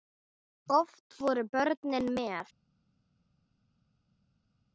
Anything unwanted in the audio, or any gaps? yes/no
no